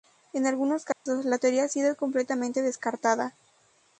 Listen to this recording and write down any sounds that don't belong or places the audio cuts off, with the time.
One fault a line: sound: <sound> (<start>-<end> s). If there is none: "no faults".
sound: dropout (0.9-1.1 s)